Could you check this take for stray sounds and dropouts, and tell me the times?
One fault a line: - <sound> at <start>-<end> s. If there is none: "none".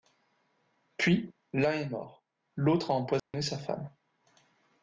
- dropout at 3.2-3.3 s